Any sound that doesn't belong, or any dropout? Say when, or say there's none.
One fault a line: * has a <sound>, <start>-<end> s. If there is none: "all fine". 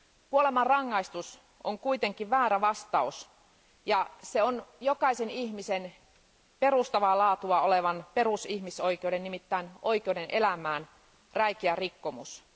all fine